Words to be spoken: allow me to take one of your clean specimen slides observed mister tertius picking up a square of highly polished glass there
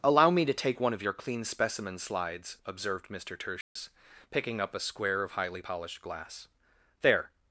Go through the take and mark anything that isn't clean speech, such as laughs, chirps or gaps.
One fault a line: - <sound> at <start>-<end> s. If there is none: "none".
- dropout at 3.6-3.8 s